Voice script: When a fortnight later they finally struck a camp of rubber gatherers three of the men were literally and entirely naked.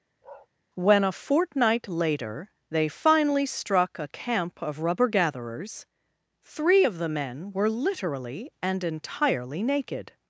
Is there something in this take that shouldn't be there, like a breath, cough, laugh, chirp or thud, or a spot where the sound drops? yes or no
yes